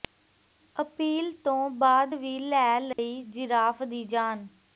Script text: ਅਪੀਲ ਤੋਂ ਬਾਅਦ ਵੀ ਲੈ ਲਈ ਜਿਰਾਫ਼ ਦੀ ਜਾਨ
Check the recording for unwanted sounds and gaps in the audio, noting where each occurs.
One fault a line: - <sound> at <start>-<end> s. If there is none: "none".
- dropout at 2.9-3.0 s